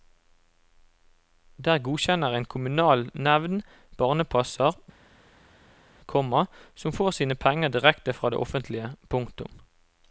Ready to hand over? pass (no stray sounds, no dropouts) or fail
pass